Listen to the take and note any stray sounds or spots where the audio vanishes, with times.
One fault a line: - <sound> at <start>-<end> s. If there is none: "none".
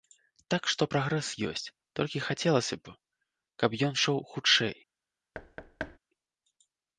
- thud at 5.3-6.0 s